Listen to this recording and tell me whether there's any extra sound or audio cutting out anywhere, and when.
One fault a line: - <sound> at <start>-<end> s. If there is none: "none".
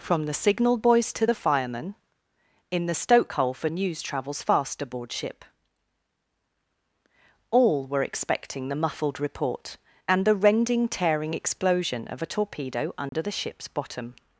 - dropout at 13.1-13.1 s